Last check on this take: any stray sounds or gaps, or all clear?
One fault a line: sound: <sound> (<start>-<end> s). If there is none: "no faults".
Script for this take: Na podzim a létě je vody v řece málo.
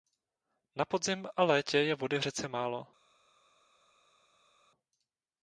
no faults